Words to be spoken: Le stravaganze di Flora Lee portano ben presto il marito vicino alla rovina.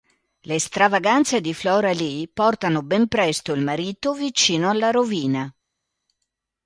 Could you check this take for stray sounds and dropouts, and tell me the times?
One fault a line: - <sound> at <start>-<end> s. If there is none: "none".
none